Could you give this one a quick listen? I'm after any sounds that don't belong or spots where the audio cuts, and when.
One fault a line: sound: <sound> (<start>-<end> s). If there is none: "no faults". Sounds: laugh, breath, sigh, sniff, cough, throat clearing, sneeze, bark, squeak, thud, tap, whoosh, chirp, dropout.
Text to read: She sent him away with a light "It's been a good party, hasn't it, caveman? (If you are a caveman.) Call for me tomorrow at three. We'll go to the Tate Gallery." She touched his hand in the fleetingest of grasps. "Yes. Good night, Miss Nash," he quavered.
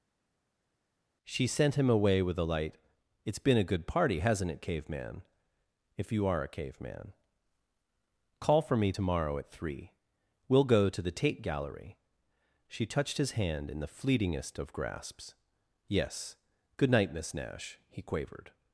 no faults